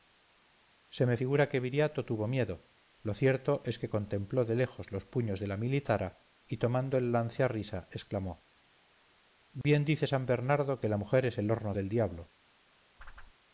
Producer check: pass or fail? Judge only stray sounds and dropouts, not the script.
fail